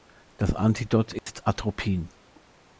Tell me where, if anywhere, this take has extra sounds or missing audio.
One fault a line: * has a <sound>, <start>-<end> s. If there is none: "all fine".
* has a dropout, 1.2-1.3 s